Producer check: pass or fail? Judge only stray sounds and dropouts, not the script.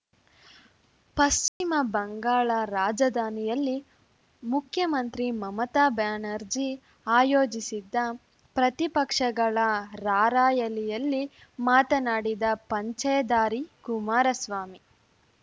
fail